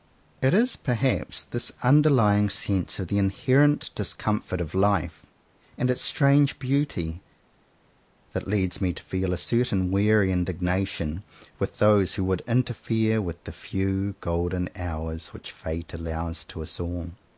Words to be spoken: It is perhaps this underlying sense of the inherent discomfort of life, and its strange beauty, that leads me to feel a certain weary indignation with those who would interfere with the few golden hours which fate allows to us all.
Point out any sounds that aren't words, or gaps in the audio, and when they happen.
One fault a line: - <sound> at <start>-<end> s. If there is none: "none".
none